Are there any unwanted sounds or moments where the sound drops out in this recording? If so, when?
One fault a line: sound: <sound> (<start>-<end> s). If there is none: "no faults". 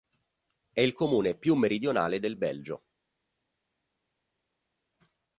no faults